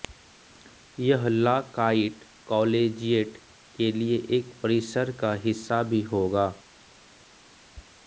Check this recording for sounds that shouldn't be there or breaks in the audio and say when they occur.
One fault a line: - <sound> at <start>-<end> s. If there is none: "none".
none